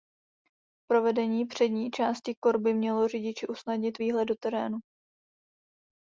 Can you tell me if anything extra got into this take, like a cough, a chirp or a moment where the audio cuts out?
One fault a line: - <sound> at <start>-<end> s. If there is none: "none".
none